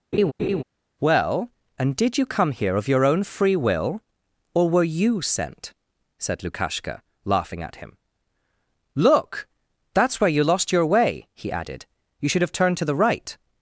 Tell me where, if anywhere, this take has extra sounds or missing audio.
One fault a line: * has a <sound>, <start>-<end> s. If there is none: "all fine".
* has a laugh, 0.1-0.6 s